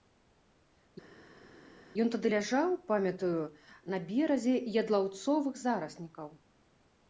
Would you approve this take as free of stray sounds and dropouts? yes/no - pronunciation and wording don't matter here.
yes